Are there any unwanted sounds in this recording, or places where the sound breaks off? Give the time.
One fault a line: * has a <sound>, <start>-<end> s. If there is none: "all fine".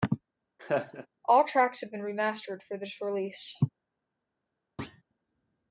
* has a laugh, 0.6-1.1 s
* has a thud, 4.8-5.0 s